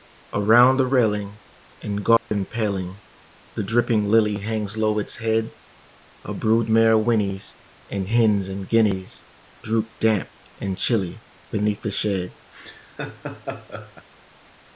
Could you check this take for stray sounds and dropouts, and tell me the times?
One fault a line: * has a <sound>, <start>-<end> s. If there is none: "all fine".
* has a dropout, 2.2-2.3 s
* has a laugh, 12.5-14.1 s